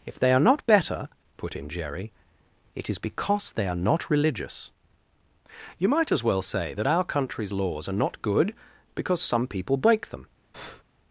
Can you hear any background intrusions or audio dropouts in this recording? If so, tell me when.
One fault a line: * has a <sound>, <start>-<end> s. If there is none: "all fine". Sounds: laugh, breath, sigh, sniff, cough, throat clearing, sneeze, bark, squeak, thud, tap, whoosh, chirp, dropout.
* has a breath, 10.5-10.8 s